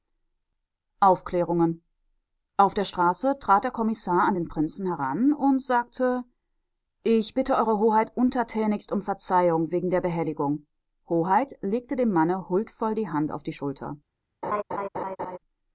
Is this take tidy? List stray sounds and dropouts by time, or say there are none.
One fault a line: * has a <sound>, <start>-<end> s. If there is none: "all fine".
* has a laugh, 14.4-15.4 s